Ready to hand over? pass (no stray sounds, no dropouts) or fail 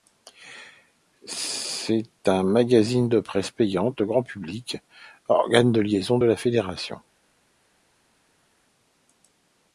pass